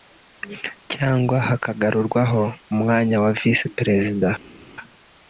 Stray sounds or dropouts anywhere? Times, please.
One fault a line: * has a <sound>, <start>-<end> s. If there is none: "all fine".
all fine